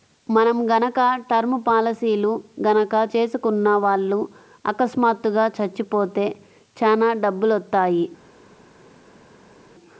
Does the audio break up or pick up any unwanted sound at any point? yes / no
no